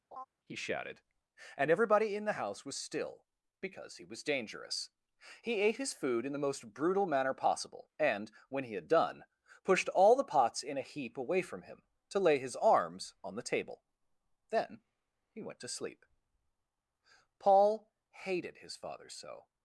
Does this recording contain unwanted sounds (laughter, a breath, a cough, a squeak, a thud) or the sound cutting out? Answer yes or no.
yes